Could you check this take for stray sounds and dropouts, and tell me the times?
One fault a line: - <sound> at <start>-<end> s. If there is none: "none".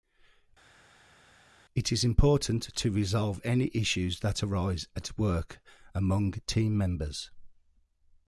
none